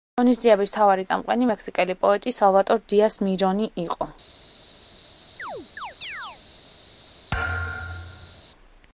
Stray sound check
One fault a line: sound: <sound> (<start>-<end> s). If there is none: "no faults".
sound: chirp (5.4-6.4 s)
sound: thud (7.3-8.4 s)